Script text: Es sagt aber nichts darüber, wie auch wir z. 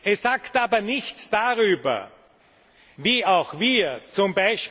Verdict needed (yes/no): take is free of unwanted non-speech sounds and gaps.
yes